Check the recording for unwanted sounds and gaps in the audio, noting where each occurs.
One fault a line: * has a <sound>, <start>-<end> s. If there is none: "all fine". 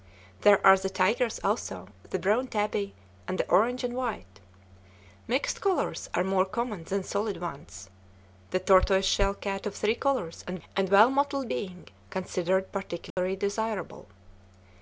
* has a dropout, 13.1-13.2 s